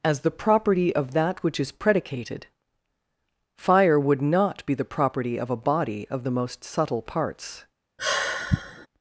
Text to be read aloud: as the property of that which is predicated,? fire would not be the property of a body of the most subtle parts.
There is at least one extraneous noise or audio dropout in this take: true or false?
true